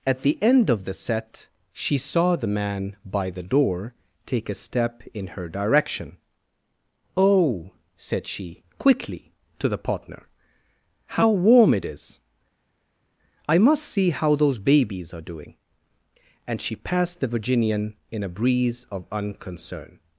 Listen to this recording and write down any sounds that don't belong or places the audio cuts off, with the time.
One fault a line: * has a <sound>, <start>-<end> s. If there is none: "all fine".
all fine